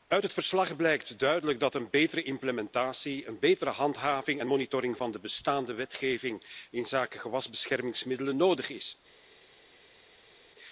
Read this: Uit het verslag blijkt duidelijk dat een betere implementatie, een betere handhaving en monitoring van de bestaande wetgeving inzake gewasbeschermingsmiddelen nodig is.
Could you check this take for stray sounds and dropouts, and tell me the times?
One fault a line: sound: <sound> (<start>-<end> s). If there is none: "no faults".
no faults